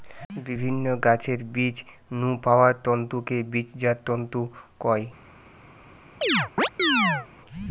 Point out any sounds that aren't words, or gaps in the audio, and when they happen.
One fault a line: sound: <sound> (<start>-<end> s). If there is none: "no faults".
sound: chirp (6.2-7.3 s)